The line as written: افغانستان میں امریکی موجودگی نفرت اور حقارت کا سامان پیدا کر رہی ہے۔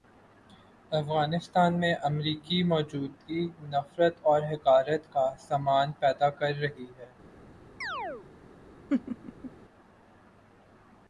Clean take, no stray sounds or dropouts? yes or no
no